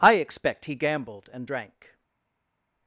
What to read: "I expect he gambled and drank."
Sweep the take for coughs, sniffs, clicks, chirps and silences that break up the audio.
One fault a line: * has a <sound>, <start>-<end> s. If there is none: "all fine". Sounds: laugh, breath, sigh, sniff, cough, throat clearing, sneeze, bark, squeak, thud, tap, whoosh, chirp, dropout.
all fine